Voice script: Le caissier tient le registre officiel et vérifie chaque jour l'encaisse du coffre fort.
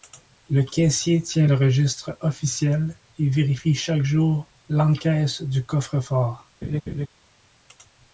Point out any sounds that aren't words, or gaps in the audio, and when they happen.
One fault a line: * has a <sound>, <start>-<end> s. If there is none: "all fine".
* has a laugh, 6.6-7.1 s